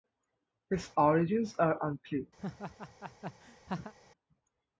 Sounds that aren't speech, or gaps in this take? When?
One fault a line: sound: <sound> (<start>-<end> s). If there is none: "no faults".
sound: laugh (2.4-3.9 s)